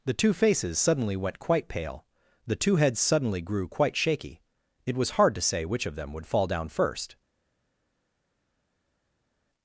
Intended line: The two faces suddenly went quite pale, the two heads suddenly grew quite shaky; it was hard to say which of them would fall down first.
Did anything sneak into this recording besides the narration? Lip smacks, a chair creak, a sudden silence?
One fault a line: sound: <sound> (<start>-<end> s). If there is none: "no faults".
no faults